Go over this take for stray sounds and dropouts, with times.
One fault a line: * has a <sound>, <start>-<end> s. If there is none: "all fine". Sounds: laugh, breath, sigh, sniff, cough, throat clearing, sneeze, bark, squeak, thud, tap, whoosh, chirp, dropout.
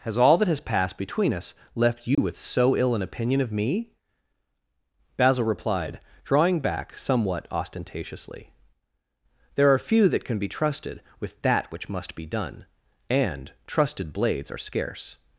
* has a dropout, 2.1-2.2 s